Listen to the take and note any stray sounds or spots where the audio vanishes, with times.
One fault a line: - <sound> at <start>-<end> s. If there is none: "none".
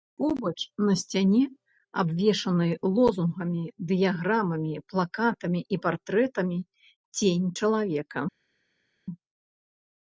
none